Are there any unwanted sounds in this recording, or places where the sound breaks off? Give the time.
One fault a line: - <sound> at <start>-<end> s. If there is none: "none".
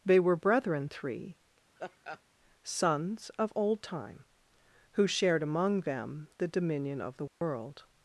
- laugh at 1.8-2.2 s
- dropout at 7.3-7.4 s